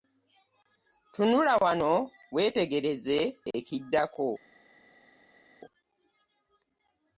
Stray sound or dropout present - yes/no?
no